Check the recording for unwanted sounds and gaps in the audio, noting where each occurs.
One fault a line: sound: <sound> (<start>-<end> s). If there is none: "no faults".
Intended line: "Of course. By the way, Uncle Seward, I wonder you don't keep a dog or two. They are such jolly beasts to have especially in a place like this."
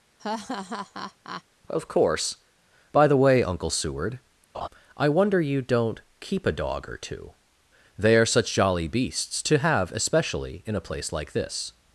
sound: laugh (0.2-1.4 s)
sound: laugh (4.5-4.7 s)